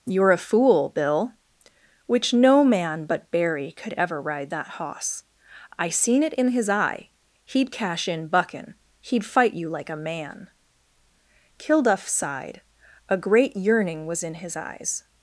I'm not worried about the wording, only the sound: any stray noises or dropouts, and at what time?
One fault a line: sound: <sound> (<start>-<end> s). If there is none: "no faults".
no faults